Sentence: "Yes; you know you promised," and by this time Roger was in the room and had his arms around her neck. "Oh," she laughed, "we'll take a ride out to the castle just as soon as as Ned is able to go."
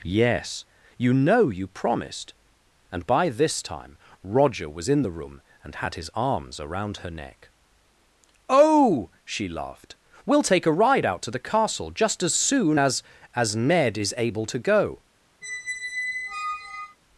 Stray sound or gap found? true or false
true